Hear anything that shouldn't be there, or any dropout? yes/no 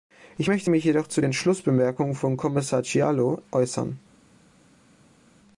no